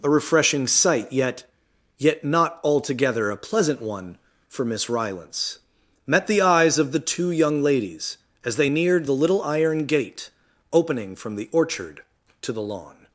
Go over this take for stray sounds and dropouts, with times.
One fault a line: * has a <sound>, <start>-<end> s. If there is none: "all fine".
all fine